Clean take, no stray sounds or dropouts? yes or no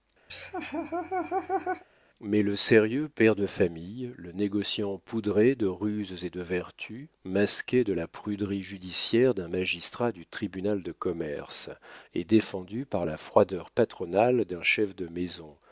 no